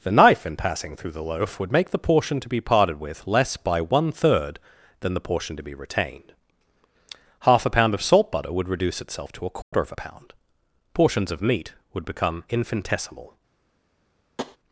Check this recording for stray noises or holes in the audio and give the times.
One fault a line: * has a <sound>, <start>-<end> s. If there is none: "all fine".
* has a dropout, 9.6-9.7 s
* has a tap, 14.4-14.6 s